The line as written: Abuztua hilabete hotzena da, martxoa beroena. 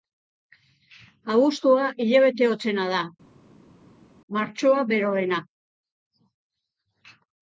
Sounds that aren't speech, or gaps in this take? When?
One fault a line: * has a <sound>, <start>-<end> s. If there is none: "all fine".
all fine